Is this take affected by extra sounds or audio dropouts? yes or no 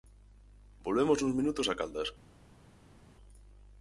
no